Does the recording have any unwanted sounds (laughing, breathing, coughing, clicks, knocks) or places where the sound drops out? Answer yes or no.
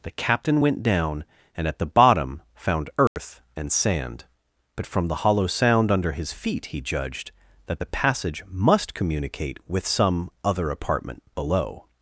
yes